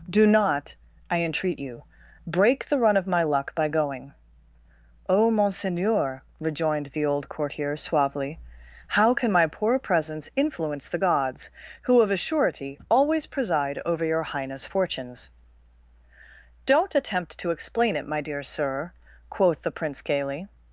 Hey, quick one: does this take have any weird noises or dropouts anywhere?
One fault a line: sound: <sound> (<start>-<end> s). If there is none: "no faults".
no faults